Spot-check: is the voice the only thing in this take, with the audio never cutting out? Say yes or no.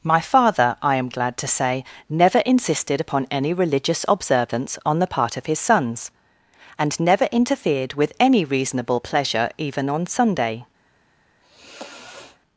no